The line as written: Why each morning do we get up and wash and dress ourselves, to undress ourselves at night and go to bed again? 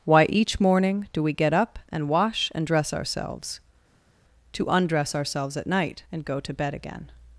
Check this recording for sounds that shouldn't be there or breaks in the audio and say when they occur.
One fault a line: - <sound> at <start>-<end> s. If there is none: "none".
none